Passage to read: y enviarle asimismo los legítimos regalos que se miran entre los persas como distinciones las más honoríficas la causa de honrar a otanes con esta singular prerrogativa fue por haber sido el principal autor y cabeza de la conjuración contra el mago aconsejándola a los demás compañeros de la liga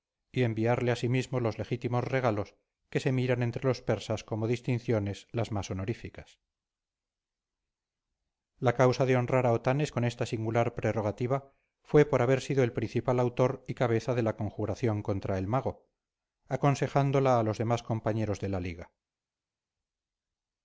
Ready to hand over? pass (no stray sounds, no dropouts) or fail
pass